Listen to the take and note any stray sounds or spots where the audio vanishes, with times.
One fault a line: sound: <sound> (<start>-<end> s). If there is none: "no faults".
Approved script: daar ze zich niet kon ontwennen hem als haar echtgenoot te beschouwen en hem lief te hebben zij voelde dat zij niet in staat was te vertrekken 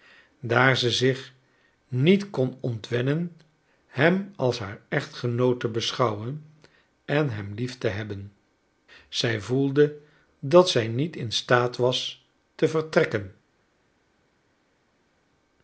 no faults